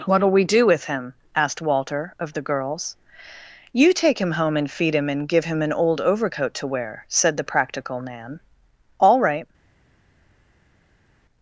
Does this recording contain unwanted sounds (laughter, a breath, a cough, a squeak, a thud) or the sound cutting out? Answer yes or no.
no